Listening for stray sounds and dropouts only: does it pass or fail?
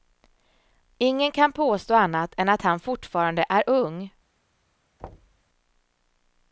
fail